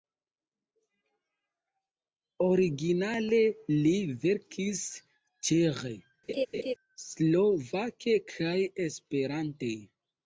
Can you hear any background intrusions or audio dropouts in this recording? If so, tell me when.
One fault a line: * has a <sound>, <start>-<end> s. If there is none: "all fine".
* has a laugh, 6.3-6.7 s